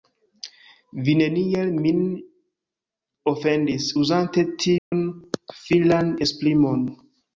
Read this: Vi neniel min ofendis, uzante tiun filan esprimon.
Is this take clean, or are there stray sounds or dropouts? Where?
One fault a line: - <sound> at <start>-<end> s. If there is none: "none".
- dropout at 4.8-4.9 s